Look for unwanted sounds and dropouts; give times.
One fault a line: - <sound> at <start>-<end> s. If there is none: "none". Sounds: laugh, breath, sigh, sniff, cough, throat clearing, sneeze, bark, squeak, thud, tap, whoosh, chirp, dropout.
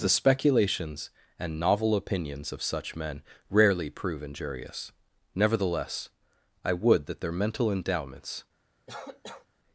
- cough at 8.9-9.5 s